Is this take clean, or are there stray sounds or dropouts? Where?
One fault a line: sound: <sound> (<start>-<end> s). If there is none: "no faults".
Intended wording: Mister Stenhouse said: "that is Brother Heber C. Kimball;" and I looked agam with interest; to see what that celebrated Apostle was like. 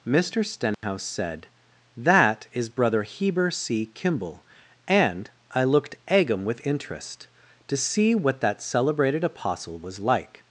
sound: dropout (0.7-0.8 s)